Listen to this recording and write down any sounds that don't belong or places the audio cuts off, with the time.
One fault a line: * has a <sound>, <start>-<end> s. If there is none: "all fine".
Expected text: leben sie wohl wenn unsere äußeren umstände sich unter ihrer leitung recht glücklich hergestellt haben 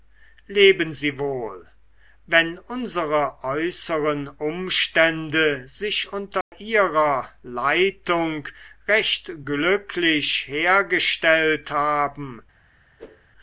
* has a dropout, 6.4-6.5 s
* has a whoosh, 13.0-13.3 s